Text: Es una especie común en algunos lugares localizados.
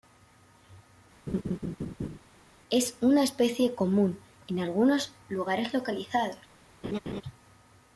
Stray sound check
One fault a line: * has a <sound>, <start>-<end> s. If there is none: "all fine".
* has a laugh, 1.3-2.2 s
* has a laugh, 6.8-7.2 s